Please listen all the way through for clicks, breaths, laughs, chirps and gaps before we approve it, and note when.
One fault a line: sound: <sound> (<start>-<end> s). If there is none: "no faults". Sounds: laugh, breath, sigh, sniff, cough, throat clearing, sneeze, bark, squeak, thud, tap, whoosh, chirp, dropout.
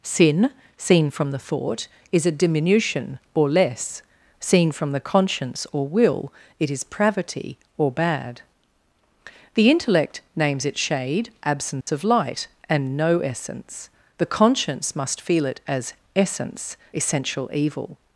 sound: dropout (11.8-11.9 s)